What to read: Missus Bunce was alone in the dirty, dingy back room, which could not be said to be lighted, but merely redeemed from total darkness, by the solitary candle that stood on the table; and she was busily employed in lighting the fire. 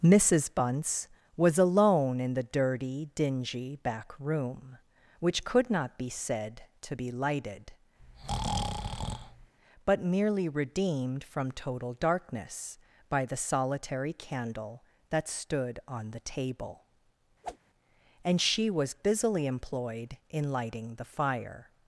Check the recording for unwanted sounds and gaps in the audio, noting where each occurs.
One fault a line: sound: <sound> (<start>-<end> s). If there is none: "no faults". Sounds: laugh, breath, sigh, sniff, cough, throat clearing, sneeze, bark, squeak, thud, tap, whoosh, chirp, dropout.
sound: breath (8.0-9.5 s)
sound: whoosh (17.4-17.6 s)